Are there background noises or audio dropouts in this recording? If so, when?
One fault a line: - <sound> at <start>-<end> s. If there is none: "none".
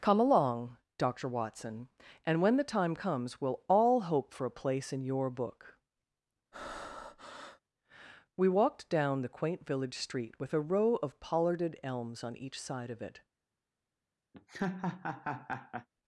- breath at 6.5-7.6 s
- laugh at 14.3-15.9 s